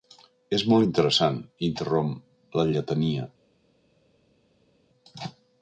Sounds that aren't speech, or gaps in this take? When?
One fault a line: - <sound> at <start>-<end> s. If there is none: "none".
none